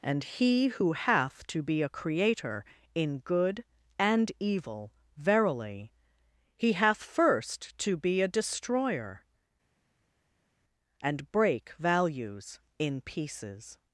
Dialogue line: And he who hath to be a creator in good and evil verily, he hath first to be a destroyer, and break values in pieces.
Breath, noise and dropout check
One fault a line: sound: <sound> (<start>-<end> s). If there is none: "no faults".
no faults